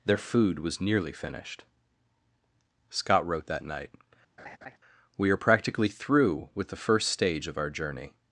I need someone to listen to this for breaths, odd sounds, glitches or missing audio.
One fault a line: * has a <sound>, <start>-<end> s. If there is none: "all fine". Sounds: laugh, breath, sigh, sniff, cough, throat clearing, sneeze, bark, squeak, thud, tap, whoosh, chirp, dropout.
* has a laugh, 4.4-4.8 s